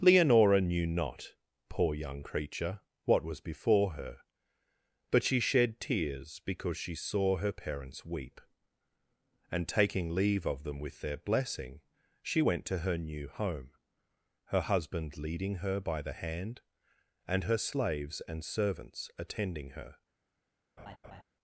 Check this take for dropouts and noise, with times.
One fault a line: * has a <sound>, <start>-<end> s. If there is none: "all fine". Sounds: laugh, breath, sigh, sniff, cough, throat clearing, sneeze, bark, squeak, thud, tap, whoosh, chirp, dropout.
* has a laugh, 20.8-21.2 s